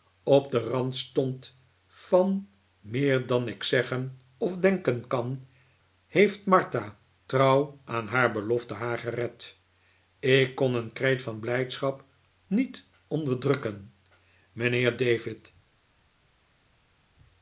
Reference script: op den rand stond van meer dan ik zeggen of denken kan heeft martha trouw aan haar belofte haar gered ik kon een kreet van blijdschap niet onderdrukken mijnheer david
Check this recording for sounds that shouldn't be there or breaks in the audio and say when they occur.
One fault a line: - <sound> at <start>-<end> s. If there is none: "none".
none